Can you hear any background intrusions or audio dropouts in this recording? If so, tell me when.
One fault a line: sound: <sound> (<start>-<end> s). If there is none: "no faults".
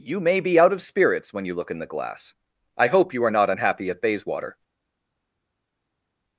no faults